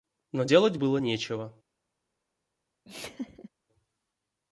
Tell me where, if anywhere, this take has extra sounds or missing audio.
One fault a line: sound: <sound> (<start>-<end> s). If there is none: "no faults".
sound: laugh (2.8-3.5 s)